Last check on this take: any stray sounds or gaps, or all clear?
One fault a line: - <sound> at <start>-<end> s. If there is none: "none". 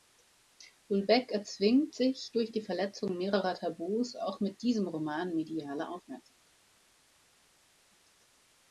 none